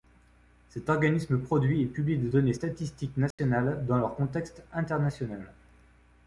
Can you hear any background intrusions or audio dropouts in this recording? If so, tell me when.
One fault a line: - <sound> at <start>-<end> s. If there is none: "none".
- dropout at 3.3-3.4 s